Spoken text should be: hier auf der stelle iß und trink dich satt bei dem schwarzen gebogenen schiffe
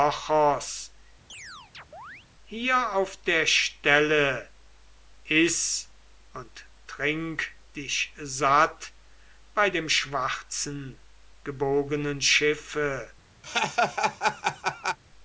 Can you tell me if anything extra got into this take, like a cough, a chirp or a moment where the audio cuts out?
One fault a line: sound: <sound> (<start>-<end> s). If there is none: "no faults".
sound: chirp (1.3-2.3 s)
sound: laugh (13.4-15.0 s)